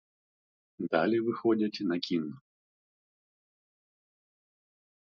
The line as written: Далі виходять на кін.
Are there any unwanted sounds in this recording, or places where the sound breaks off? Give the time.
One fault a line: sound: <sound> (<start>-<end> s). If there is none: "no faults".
no faults